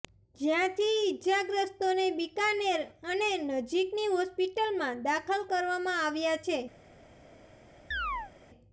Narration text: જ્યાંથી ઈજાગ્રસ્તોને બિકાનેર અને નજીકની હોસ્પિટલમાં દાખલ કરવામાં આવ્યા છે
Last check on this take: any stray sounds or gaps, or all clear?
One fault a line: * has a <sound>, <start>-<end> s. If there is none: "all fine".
* has a chirp, 7.9-8.3 s